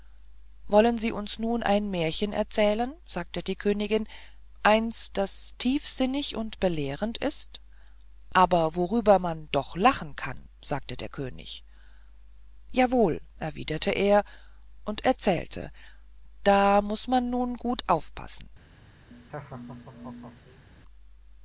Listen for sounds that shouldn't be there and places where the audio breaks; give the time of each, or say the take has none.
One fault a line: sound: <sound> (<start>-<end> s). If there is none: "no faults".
sound: laugh (19.1-20.6 s)